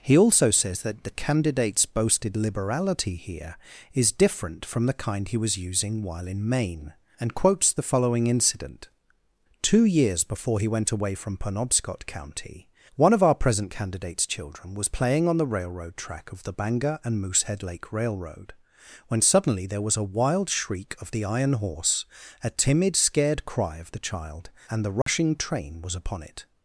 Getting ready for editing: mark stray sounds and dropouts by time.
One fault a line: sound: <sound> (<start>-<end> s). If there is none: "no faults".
sound: dropout (25.0-25.1 s)